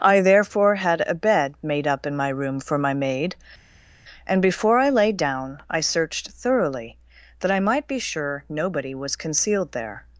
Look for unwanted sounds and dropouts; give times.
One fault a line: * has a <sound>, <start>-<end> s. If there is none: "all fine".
all fine